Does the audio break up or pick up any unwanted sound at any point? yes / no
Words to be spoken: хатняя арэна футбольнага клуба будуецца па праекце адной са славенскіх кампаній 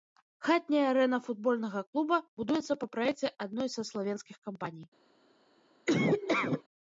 yes